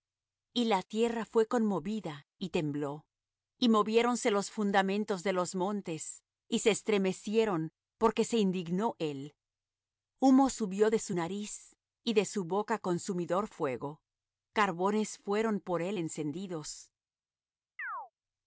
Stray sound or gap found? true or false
true